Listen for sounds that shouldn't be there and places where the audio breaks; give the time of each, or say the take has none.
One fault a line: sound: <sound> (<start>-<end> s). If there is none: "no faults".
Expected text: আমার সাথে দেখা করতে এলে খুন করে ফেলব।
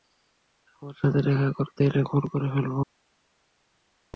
no faults